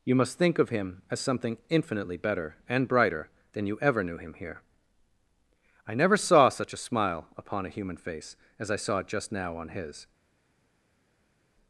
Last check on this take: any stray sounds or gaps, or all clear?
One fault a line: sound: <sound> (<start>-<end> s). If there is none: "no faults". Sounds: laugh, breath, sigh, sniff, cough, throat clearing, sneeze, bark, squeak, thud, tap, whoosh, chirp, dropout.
no faults